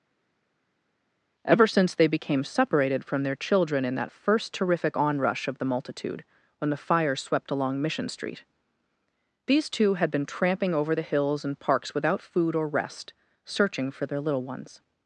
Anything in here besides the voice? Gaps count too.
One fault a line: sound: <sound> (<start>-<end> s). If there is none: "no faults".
no faults